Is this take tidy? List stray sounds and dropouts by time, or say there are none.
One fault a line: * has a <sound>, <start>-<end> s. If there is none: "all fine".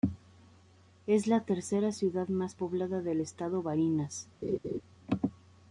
* has a laugh, 4.4-4.8 s